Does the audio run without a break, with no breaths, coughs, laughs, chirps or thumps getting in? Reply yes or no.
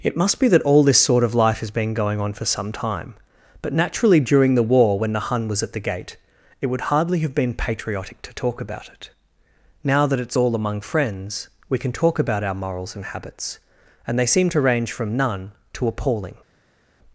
yes